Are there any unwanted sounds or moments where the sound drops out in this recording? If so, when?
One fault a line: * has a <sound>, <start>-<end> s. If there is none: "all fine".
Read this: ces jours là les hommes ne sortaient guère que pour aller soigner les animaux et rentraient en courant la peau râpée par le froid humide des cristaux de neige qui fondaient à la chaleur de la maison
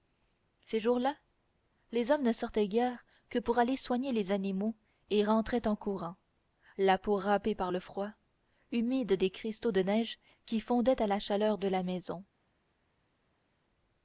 all fine